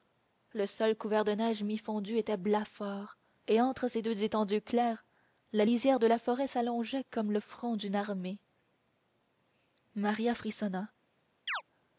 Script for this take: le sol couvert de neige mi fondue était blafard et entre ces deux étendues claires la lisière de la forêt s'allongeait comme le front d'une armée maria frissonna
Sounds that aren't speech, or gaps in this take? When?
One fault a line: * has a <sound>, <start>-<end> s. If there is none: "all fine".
* has a chirp, 11.5-11.6 s